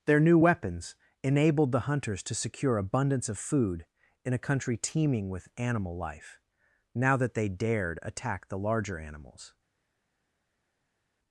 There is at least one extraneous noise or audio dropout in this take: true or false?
false